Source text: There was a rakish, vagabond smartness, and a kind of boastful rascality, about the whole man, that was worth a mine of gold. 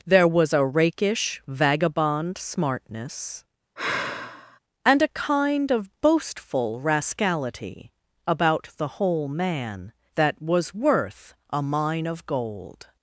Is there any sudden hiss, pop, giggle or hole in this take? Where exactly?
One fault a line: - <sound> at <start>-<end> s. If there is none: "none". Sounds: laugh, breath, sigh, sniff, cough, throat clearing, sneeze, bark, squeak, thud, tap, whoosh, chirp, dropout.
- sigh at 3.8-4.6 s